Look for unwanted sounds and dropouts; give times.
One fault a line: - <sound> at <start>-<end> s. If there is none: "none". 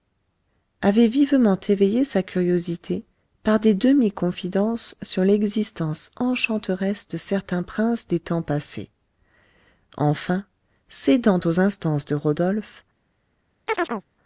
- chirp at 13.7-14.0 s